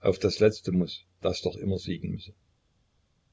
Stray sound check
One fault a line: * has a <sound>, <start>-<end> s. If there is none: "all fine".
all fine